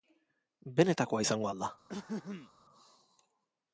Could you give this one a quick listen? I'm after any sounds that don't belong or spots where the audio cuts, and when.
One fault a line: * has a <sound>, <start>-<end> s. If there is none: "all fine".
* has a throat clearing, 1.9-2.5 s